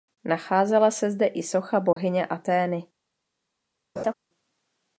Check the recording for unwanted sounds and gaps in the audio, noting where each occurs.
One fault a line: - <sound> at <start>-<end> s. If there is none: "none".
- dropout at 1.9-2.0 s
- laugh at 4.0-4.1 s